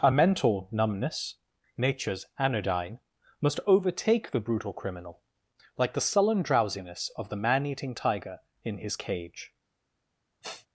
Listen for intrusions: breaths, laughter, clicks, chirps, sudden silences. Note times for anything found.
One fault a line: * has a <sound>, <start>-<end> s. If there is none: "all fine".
* has a sniff, 10.4-10.7 s